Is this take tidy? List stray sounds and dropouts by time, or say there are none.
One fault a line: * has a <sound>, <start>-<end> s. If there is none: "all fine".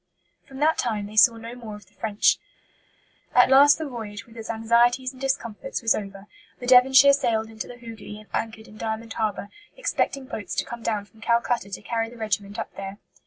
all fine